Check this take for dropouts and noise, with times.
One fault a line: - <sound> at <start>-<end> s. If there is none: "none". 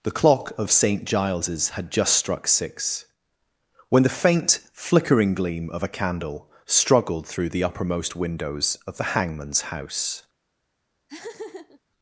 - laugh at 11.1-11.8 s